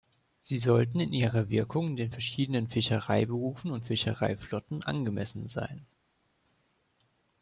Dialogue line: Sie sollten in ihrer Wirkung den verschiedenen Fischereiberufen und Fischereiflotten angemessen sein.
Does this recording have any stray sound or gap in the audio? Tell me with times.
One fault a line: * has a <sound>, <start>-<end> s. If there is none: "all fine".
all fine